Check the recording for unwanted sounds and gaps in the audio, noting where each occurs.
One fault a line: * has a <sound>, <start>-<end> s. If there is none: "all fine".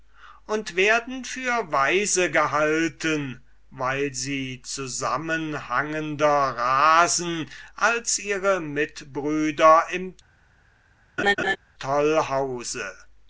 * has a laugh, 11.2-11.6 s